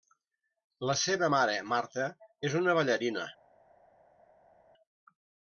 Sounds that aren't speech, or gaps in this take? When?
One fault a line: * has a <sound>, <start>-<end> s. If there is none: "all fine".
all fine